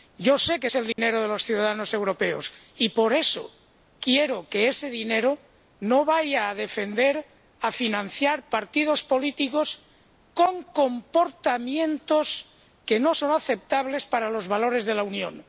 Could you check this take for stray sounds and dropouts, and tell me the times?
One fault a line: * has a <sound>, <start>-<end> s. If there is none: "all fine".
* has a dropout, 0.9-1.0 s